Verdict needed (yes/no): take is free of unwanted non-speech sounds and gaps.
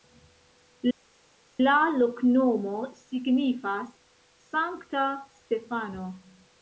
yes